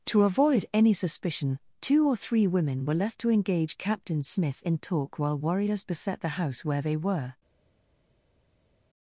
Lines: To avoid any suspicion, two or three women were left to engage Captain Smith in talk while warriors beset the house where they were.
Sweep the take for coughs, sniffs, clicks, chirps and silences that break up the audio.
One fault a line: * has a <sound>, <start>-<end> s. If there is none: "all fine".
all fine